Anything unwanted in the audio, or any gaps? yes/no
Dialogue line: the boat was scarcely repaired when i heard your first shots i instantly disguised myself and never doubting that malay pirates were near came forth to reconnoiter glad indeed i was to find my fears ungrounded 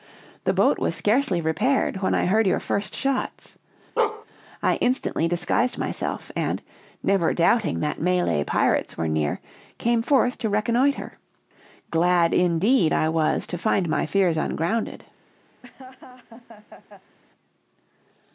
yes